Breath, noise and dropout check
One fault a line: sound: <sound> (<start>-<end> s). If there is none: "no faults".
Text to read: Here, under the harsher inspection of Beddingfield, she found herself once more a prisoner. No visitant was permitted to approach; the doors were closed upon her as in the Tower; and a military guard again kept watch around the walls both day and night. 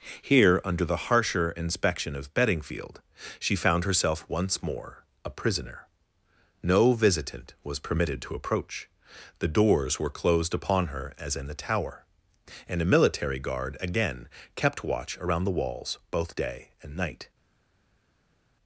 no faults